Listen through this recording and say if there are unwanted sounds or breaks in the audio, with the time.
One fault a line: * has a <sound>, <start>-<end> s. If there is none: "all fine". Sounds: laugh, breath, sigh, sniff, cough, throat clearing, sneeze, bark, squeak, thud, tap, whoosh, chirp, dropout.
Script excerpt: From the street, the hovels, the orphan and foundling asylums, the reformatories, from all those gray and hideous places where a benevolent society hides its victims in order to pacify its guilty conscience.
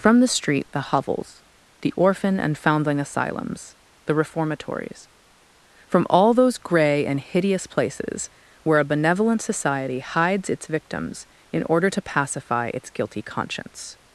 all fine